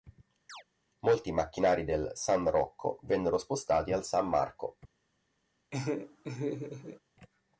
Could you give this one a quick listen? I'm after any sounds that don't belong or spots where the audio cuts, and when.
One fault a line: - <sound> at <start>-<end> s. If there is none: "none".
- chirp at 0.5-0.6 s
- laugh at 5.7-7.0 s